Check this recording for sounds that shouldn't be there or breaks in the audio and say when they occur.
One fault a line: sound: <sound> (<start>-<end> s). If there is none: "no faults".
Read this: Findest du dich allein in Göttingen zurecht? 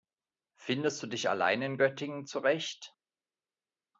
no faults